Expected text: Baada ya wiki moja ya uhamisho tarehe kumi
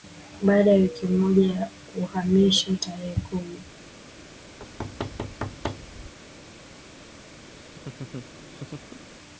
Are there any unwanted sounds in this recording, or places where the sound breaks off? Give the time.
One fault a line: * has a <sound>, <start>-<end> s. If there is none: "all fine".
* has a thud, 4.6-6.1 s
* has a laugh, 7.5-9.0 s